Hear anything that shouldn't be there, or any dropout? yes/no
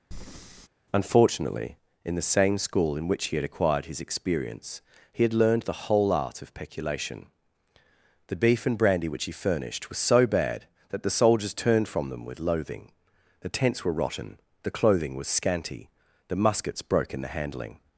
yes